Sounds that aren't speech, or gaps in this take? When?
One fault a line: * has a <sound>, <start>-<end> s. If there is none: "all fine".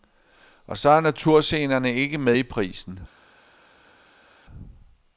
all fine